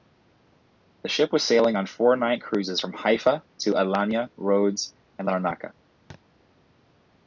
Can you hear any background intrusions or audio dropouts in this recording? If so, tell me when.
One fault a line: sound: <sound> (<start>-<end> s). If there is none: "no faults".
sound: thud (6.1-6.2 s)